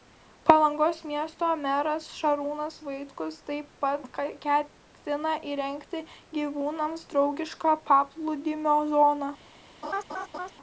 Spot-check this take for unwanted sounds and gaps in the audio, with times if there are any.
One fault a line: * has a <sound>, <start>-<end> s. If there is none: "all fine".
* has a laugh, 9.8-10.5 s